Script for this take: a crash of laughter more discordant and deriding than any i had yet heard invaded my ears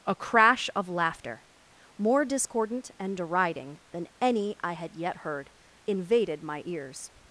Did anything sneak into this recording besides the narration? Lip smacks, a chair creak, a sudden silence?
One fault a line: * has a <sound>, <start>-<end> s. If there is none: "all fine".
all fine